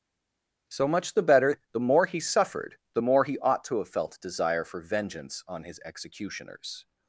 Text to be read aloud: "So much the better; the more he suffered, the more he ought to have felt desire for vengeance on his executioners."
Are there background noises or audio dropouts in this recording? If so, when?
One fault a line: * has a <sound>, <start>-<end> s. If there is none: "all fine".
all fine